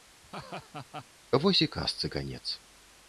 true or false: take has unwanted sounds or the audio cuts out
true